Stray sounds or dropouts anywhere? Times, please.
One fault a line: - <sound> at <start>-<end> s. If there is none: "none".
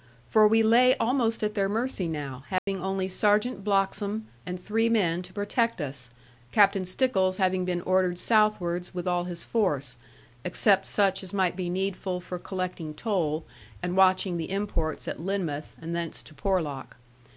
- dropout at 2.6-2.7 s